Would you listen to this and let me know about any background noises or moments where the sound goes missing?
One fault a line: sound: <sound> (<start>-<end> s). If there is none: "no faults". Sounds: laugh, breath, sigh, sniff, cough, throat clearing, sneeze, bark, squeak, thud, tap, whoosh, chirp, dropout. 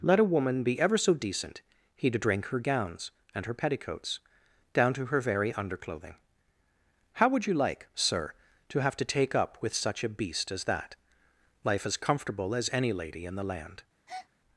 sound: breath (14.1-14.3 s)